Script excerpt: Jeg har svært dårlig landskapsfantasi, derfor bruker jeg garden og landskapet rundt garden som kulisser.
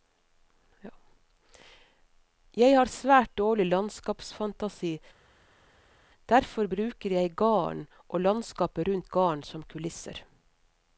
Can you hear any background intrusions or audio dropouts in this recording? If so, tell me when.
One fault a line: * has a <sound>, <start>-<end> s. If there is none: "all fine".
all fine